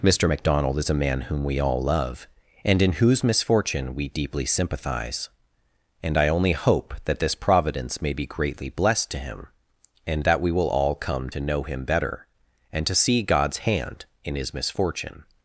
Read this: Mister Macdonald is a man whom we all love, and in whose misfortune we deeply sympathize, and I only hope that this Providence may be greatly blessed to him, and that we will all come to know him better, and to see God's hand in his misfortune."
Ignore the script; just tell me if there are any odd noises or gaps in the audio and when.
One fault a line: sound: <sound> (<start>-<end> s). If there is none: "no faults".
no faults